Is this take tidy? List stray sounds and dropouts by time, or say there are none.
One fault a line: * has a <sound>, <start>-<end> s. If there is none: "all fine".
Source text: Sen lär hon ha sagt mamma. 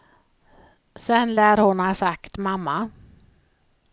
all fine